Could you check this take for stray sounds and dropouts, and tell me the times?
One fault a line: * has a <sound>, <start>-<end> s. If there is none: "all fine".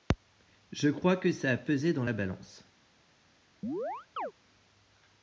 * has a chirp, 3.6-4.3 s